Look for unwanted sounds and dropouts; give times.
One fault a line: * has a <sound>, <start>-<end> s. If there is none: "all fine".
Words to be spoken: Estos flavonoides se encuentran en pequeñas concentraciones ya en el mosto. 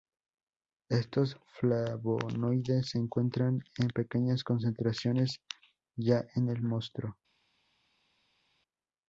all fine